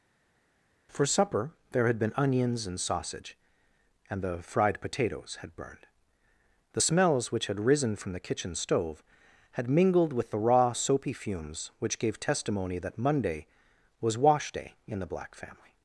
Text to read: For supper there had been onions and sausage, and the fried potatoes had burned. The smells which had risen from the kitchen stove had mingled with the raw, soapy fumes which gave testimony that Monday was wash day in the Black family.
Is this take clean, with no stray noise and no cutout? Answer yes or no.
yes